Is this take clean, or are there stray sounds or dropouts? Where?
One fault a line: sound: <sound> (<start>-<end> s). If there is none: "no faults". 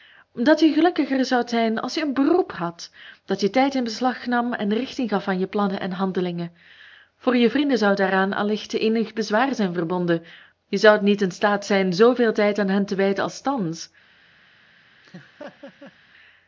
sound: laugh (15.0-16.0 s)